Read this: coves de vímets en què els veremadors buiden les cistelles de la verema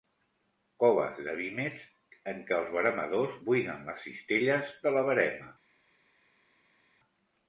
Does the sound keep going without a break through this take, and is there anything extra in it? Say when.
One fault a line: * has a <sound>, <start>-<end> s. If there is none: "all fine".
all fine